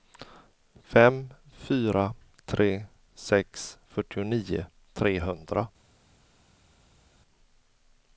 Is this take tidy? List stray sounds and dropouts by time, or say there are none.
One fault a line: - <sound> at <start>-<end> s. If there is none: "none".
none